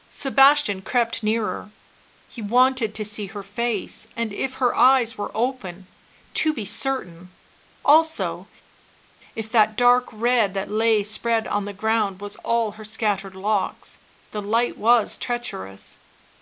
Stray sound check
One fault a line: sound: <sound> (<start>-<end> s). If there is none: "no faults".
no faults